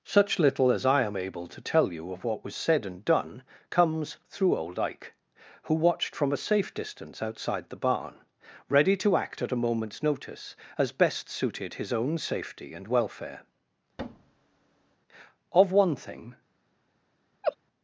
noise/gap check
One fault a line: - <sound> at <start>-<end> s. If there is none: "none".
- thud at 14.0-15.0 s
- laugh at 17.4-17.6 s